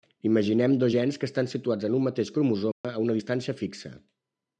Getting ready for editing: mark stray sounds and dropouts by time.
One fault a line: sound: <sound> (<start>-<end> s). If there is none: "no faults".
sound: dropout (2.7-2.8 s)